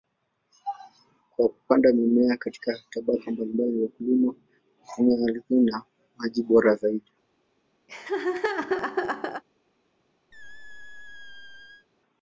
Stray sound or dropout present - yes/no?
yes